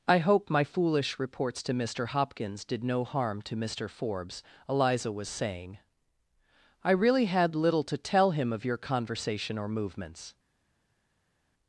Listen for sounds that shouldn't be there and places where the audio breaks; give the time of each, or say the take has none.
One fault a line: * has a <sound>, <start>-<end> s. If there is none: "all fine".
all fine